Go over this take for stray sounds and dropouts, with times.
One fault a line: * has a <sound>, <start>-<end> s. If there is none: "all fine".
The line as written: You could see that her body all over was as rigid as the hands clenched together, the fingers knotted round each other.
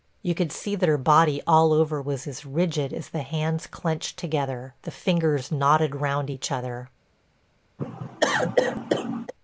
* has a cough, 7.8-9.3 s